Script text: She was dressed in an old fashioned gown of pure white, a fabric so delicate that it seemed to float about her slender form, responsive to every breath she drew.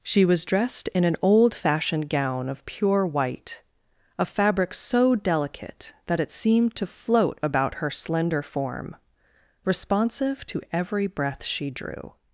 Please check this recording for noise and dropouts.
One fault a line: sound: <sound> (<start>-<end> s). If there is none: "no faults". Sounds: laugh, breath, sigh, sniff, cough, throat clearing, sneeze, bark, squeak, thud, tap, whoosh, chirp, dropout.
no faults